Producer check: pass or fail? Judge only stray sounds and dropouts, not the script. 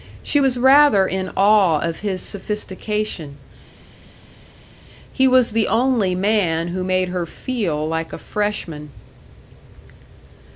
pass